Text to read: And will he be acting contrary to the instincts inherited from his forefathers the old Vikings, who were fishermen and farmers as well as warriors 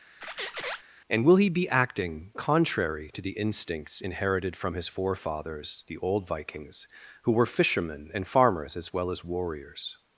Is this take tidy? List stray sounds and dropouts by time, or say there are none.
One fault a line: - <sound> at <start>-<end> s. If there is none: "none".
- squeak at 0.2-0.8 s